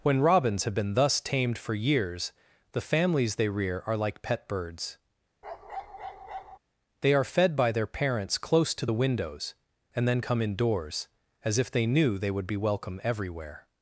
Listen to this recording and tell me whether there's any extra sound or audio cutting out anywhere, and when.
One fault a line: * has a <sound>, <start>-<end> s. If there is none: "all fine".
* has a bark, 5.4-6.6 s